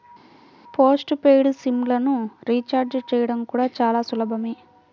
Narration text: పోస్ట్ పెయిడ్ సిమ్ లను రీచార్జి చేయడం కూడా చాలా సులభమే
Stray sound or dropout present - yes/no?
no